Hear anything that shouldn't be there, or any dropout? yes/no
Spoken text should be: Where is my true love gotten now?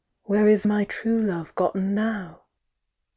no